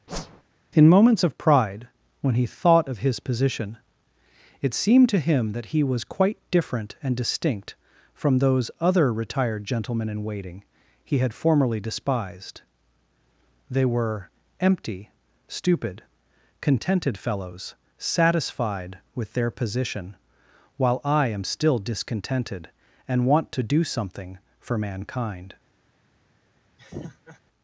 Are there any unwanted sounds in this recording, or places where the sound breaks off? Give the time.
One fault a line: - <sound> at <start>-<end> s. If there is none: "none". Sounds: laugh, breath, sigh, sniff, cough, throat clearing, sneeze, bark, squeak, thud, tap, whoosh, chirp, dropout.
- whoosh at 0.1-0.4 s
- laugh at 26.8-27.4 s